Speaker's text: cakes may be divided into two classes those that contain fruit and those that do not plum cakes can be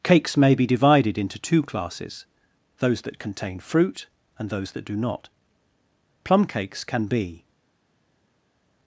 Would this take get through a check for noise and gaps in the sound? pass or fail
pass